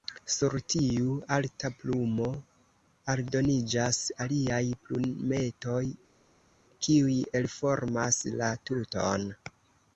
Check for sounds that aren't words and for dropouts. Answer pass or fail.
pass